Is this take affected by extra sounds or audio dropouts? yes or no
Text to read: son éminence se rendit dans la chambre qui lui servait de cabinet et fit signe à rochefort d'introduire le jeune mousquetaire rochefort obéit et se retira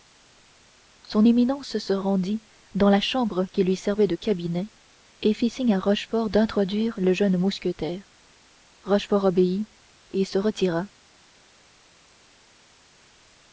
no